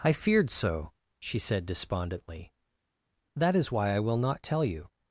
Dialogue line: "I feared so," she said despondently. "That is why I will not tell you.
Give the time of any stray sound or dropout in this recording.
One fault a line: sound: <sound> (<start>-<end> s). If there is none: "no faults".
no faults